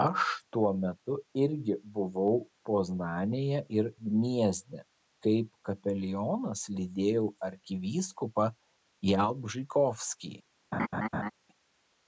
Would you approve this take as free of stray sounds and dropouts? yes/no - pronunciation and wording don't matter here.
no